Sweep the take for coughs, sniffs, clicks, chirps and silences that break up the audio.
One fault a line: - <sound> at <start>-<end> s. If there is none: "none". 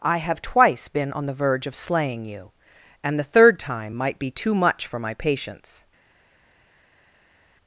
none